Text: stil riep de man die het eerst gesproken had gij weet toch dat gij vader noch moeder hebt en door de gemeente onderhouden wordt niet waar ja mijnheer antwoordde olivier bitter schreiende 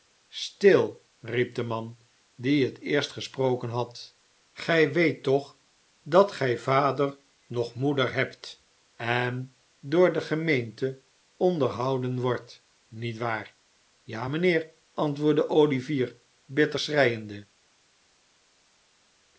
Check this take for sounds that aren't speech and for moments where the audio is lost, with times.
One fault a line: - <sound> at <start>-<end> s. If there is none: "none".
none